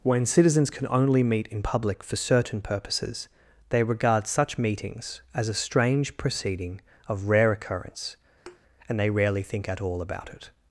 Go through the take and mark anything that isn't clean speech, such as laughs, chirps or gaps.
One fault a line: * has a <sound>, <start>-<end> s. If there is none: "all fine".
* has a thud, 8.5-8.6 s